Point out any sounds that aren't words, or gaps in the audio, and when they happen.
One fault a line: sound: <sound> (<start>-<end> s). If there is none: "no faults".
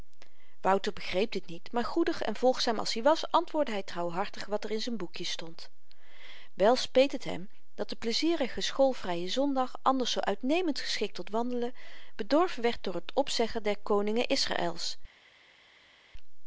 no faults